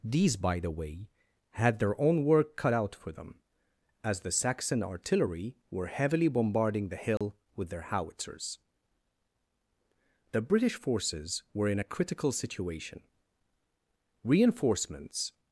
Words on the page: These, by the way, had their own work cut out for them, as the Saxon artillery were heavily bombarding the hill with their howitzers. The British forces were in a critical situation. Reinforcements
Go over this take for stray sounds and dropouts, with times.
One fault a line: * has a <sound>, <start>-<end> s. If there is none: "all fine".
* has a dropout, 7.2-7.2 s